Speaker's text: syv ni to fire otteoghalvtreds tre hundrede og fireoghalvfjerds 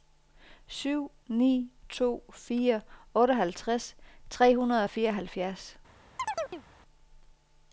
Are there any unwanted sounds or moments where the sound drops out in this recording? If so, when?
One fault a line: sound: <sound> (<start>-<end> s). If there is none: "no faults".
sound: chirp (6.2-6.6 s)